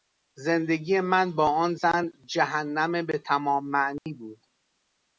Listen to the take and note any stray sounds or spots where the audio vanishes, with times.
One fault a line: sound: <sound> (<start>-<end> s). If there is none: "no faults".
sound: dropout (4.0-4.1 s)